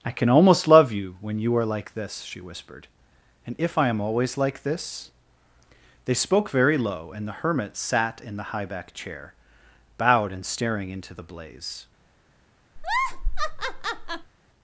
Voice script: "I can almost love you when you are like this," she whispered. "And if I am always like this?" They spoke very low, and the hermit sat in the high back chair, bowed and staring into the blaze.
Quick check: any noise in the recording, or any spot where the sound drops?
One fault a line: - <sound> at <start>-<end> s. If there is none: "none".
- laugh at 12.8-14.3 s